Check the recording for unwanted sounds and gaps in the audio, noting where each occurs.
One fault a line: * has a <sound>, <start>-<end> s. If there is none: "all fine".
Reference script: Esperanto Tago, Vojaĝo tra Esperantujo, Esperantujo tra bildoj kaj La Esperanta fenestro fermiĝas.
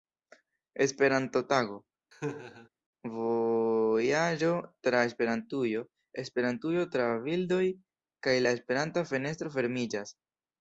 * has a laugh, 2.1-2.7 s